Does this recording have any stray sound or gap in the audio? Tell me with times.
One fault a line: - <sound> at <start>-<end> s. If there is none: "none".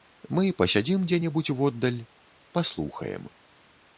none